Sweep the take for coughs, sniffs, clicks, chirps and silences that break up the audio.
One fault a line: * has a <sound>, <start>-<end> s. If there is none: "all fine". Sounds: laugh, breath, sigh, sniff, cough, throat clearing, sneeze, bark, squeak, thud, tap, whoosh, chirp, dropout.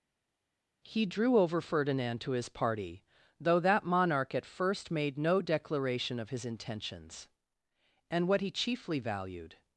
all fine